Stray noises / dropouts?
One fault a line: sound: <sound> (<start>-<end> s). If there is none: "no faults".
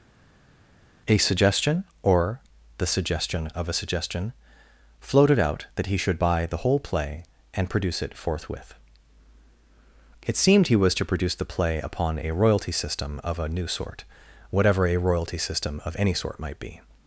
no faults